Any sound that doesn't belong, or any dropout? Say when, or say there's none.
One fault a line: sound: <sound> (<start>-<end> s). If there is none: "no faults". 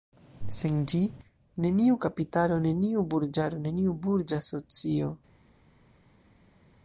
no faults